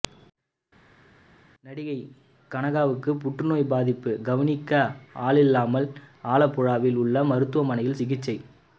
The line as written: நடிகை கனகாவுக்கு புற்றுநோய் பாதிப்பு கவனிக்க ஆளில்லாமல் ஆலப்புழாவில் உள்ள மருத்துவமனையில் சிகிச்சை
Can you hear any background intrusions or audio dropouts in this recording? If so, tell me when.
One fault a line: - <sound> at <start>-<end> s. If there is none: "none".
none